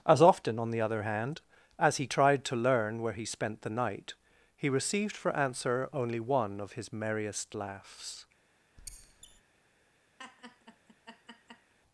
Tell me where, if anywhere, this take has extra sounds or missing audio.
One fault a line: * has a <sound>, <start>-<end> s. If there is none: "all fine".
* has a squeak, 8.8-9.4 s
* has a laugh, 10.2-11.7 s